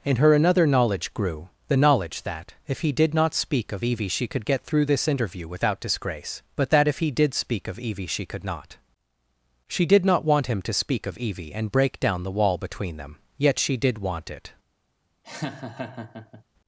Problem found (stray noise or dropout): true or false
true